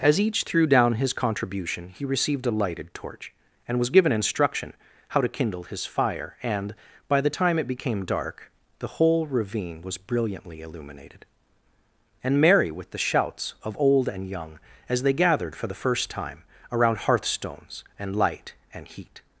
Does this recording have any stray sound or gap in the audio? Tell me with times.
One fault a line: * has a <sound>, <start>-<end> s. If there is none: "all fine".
all fine